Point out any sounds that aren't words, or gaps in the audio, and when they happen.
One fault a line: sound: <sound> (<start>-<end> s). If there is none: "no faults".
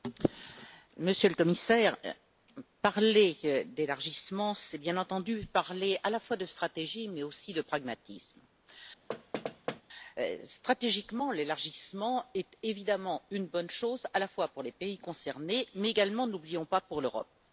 sound: thud (9.1-9.8 s)